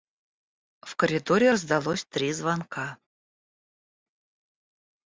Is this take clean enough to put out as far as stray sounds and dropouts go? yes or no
yes